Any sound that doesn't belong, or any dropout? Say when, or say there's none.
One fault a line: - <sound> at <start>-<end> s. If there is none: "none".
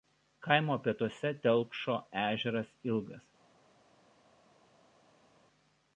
none